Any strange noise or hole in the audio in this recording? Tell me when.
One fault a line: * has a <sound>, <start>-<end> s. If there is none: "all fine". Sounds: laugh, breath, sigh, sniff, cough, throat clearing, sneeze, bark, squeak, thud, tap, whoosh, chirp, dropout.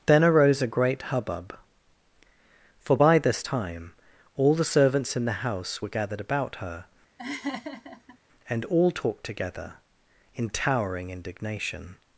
* has a laugh, 7.2-8.2 s